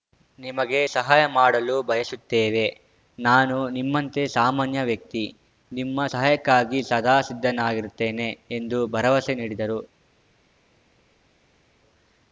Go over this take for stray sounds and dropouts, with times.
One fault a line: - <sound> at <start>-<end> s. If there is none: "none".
none